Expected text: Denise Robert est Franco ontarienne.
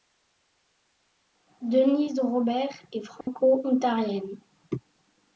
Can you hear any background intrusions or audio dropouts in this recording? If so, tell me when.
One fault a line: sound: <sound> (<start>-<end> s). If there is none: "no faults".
sound: dropout (3.2-3.3 s)